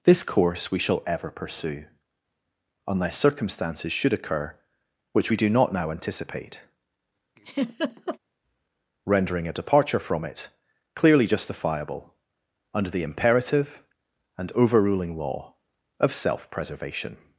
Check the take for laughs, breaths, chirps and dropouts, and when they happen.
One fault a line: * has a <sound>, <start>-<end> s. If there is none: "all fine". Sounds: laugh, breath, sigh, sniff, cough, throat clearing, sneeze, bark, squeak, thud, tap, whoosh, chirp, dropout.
* has a laugh, 7.4-8.2 s